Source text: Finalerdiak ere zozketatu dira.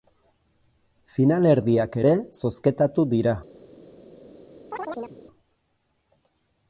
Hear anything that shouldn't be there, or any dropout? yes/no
yes